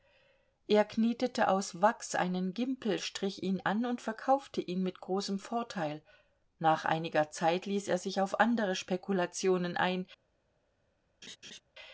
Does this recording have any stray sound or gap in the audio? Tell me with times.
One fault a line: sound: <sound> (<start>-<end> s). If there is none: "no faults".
sound: laugh (11.2-11.6 s)